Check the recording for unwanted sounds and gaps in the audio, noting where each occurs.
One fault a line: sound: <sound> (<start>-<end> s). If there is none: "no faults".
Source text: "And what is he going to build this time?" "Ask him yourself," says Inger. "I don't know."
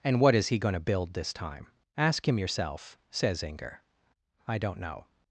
no faults